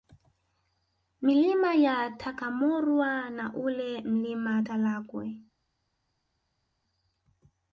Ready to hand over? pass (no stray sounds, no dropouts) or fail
pass